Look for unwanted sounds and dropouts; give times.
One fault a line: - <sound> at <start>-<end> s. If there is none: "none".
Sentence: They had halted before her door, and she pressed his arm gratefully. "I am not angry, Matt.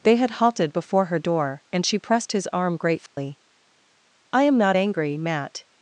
- dropout at 3.1-3.2 s